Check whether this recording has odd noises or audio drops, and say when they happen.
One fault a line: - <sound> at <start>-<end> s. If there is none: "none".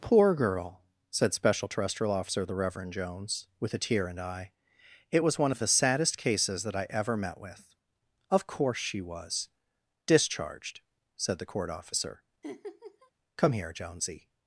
- laugh at 12.4-13.1 s